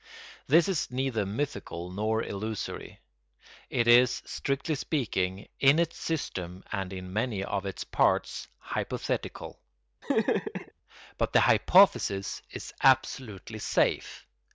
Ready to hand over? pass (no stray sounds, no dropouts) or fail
fail